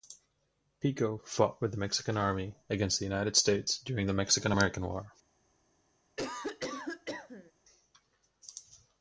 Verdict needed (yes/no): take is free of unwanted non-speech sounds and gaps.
no